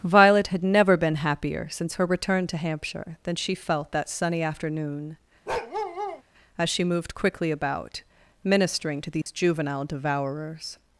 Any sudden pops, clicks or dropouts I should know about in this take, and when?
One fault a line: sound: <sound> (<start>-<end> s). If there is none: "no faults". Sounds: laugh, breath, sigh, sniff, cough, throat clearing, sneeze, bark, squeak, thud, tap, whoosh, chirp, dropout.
sound: bark (5.5-6.2 s)
sound: dropout (9.2-9.3 s)